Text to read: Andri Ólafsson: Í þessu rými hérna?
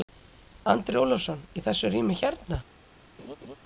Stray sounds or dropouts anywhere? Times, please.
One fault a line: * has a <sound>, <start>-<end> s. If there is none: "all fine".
* has a laugh, 3.2-3.6 s